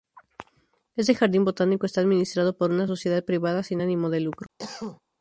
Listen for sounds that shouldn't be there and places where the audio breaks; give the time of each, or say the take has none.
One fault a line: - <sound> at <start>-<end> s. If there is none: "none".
- cough at 4.6-5.0 s